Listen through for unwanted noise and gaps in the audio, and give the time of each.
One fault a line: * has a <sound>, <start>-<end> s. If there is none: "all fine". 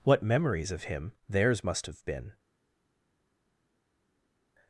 all fine